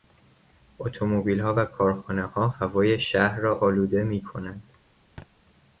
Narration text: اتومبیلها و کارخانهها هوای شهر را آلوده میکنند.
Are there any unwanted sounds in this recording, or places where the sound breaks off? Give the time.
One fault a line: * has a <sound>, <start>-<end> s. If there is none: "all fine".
* has a thud, 5.2-5.3 s